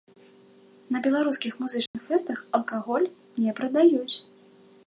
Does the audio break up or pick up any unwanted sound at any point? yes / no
yes